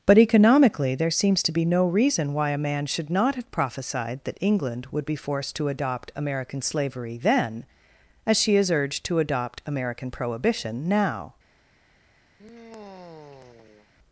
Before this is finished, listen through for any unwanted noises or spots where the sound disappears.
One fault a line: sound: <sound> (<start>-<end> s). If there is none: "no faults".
sound: sigh (12.4-13.9 s)